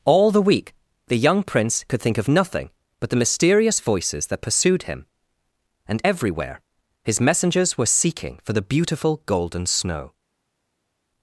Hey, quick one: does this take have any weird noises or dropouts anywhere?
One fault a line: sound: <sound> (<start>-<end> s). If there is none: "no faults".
no faults